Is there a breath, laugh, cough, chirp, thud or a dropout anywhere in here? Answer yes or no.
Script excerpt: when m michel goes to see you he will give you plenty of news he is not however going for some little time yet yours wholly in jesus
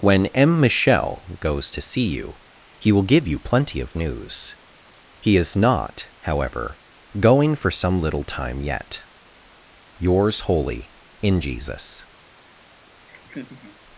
yes